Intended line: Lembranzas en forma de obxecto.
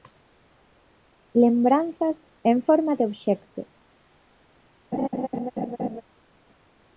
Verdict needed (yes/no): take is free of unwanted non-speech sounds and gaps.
no